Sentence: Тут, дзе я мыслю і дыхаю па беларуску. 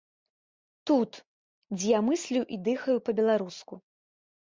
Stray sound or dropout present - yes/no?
no